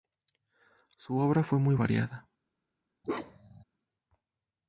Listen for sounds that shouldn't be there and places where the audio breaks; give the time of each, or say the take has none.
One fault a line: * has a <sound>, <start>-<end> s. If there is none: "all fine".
* has a bark, 3.0-3.6 s